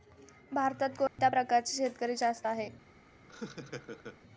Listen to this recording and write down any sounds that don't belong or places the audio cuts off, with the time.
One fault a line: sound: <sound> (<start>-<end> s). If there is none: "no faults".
sound: dropout (1.1-1.2 s)
sound: laugh (3.3-4.2 s)